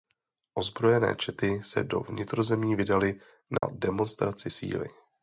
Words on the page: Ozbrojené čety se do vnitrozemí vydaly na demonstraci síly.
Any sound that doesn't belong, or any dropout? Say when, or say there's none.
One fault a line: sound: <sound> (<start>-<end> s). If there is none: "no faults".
sound: dropout (3.6-3.6 s)